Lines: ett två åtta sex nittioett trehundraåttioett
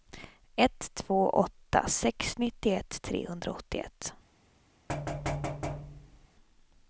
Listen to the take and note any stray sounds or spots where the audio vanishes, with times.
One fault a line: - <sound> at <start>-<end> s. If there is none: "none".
- thud at 4.9-6.3 s